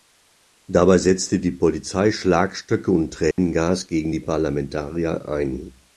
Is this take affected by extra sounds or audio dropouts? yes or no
yes